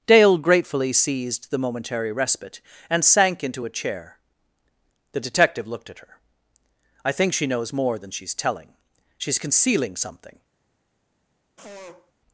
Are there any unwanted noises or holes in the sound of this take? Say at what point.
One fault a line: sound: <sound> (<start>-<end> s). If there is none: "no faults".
sound: sneeze (11.6-12.1 s)